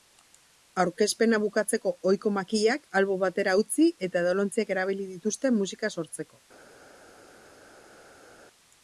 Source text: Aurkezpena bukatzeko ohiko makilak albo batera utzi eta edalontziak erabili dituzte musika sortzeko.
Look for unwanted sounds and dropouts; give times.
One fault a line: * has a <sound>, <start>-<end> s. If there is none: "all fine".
all fine